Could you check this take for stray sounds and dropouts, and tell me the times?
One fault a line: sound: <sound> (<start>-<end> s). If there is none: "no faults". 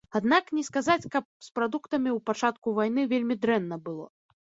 no faults